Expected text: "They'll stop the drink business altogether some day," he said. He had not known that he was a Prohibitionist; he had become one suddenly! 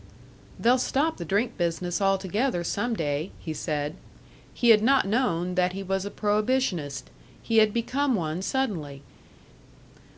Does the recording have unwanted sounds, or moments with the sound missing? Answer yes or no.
no